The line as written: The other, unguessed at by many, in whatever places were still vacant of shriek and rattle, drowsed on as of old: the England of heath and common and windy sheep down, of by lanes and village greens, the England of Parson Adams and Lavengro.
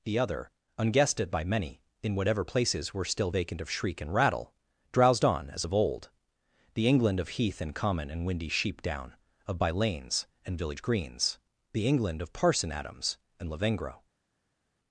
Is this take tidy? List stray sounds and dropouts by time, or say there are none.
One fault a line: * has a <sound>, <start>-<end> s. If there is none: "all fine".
all fine